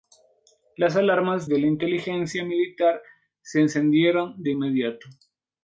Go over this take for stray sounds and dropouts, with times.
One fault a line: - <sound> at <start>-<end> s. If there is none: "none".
none